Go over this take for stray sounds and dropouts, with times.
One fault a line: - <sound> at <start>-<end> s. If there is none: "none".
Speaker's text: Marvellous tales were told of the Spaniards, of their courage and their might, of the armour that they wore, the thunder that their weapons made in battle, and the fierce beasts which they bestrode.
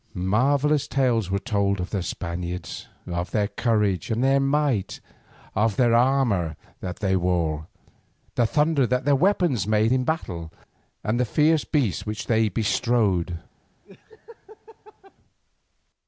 - laugh at 13.8-15.1 s